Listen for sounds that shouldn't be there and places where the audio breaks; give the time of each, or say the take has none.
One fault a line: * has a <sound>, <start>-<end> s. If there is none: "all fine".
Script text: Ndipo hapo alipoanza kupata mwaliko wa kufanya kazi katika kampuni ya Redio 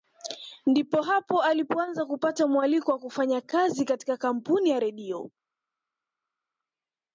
all fine